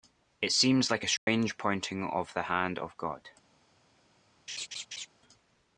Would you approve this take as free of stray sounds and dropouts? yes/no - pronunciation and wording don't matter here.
no